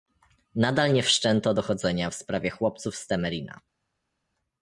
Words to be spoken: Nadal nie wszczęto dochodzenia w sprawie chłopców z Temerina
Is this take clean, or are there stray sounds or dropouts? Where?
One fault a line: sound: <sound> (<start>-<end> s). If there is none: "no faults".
no faults